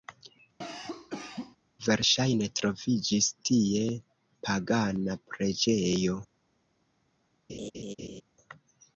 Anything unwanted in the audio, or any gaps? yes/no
yes